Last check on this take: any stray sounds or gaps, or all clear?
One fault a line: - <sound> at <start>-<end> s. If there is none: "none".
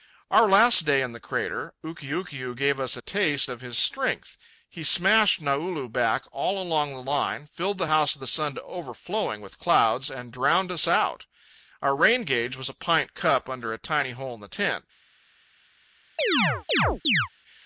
- chirp at 16.2-17.3 s